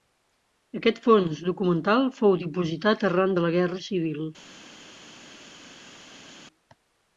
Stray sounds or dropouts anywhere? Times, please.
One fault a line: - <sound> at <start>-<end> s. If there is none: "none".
none